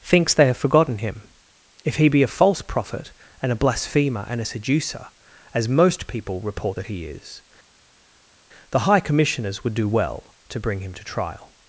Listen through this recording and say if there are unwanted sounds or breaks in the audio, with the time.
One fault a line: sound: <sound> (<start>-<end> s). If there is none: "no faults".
no faults